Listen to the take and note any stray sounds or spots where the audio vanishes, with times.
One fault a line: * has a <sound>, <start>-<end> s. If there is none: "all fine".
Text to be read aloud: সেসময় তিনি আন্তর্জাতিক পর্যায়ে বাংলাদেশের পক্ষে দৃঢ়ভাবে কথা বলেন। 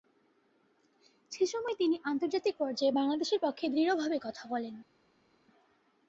all fine